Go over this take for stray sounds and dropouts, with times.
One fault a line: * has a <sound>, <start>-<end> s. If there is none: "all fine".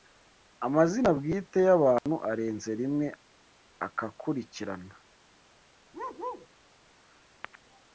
* has a dropout, 2.0-2.1 s
* has a bark, 5.9-6.5 s